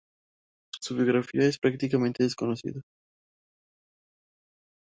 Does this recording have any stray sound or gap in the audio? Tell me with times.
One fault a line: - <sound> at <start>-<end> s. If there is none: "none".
none